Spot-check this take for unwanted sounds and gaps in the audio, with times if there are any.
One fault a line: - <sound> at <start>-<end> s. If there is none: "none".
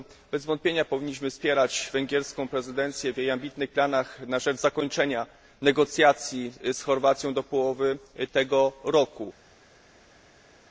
none